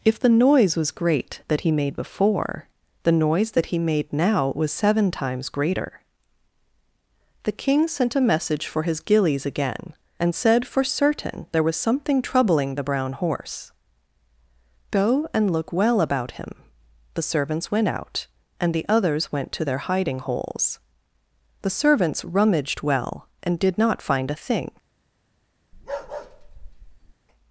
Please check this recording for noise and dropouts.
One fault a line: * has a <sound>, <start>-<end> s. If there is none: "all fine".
* has a bark, 25.7-27.1 s